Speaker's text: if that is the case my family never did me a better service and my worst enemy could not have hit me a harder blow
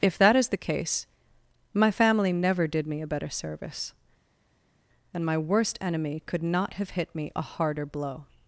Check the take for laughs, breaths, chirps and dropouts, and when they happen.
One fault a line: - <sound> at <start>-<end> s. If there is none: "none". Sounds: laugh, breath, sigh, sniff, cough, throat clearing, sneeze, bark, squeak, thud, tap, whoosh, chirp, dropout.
none